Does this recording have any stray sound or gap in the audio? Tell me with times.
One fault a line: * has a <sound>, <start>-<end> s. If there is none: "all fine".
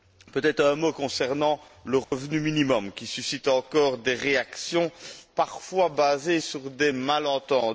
* has a dropout, 2.0-2.1 s